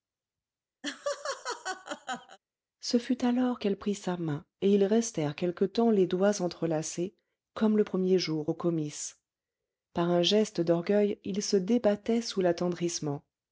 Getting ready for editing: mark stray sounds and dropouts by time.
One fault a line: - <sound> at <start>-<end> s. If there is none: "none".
- laugh at 0.8-2.4 s